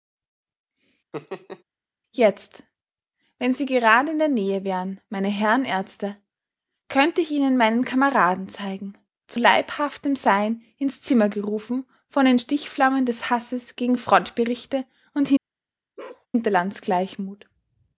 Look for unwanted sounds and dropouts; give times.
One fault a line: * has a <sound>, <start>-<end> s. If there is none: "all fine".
* has a laugh, 1.1-1.6 s
* has a bark, 16.0-16.3 s